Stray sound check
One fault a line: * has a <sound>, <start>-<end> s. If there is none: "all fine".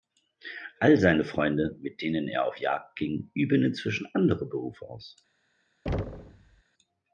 * has a thud, 5.9-6.6 s